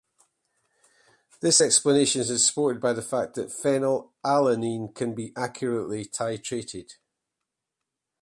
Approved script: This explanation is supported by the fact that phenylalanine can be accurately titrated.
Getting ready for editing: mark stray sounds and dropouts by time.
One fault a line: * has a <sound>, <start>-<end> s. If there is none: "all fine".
all fine